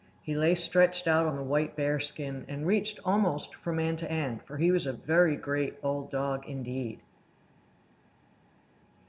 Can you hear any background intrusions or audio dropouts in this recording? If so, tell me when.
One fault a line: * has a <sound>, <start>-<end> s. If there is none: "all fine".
all fine